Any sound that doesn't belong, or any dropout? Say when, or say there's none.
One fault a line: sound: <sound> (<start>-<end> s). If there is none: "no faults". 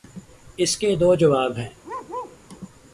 sound: bark (1.8-2.4 s)